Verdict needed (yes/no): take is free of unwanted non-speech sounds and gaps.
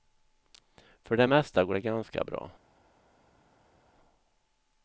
yes